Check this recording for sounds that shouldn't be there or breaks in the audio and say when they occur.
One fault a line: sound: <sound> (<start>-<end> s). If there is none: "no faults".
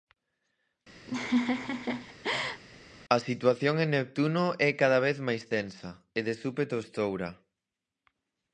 sound: laugh (1.1-2.6 s)